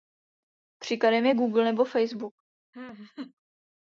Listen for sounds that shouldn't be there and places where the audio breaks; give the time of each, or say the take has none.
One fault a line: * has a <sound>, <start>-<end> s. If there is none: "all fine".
* has a laugh, 2.7-3.3 s